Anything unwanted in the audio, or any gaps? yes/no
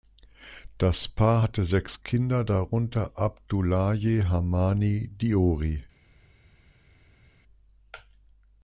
no